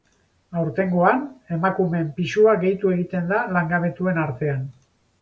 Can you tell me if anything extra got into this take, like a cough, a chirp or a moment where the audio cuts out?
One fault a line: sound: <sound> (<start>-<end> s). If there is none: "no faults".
no faults